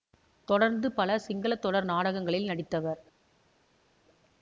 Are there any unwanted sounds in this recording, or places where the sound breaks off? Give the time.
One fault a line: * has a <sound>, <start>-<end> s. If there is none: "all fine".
all fine